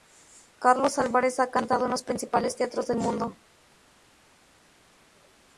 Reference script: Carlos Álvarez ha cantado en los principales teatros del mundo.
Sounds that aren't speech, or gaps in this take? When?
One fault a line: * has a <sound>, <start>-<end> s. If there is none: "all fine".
all fine